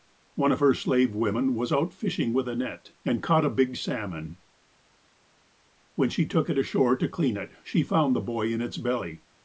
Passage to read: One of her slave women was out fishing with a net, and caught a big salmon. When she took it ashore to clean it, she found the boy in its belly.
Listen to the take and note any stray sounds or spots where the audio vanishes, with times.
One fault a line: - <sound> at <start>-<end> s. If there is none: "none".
none